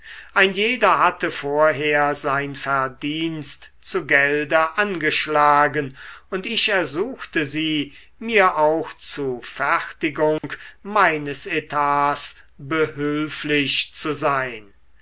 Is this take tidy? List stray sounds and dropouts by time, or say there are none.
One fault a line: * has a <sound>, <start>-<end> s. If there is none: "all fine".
* has a dropout, 10.4-10.4 s